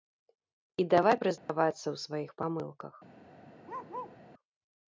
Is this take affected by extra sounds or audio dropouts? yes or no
yes